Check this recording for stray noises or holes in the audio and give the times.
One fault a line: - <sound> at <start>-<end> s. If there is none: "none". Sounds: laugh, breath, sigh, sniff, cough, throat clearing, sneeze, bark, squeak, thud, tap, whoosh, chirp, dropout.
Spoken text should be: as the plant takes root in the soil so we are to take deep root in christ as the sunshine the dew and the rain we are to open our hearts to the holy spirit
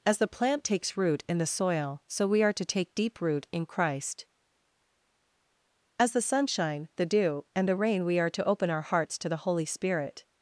none